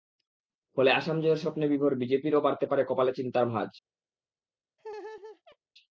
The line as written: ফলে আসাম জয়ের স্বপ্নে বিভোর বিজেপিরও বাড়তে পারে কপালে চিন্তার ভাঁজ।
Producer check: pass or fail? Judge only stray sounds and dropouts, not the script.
fail